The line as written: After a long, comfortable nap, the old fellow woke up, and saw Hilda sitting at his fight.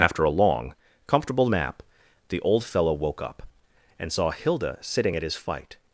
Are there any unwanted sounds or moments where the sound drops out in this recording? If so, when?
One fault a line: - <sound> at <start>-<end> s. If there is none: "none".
none